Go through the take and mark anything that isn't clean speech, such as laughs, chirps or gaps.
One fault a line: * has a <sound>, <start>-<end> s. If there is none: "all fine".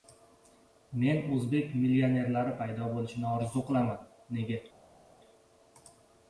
all fine